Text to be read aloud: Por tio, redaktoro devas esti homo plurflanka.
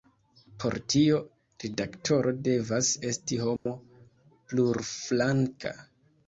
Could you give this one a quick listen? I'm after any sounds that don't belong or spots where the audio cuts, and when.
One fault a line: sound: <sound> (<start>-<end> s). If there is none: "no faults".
sound: dropout (3.6-3.7 s)